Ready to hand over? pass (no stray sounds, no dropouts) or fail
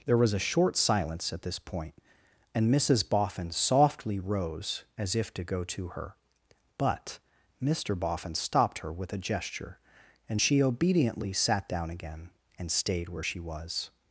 pass